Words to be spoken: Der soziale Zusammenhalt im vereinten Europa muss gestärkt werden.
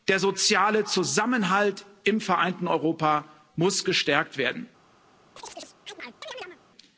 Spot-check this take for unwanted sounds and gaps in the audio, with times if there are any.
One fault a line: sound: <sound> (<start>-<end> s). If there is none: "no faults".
sound: chirp (5.4-6.6 s)